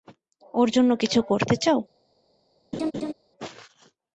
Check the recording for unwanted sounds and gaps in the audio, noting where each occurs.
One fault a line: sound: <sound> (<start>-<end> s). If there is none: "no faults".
sound: laugh (2.7-3.1 s)